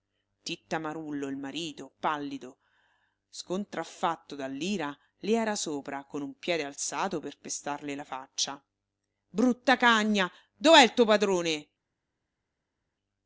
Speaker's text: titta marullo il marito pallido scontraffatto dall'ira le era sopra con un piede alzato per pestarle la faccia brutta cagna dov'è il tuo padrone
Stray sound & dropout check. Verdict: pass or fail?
pass